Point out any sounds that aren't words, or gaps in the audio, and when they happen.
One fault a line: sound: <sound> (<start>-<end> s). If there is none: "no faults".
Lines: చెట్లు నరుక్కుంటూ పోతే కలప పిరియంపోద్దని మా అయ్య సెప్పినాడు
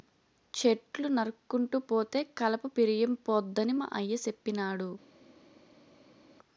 no faults